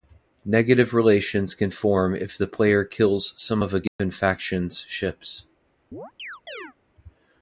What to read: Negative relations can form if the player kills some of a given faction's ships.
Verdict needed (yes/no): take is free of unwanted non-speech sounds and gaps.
no